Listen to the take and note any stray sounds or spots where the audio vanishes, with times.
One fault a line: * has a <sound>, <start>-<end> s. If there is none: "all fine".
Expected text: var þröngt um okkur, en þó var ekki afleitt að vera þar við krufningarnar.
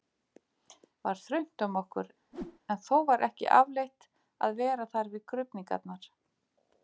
* has a whoosh, 2.3-2.6 s